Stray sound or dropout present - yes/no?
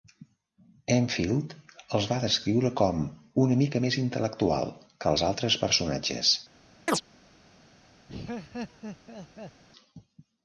yes